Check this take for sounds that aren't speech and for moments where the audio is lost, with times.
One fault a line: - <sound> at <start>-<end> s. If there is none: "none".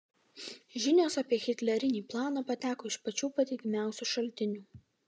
none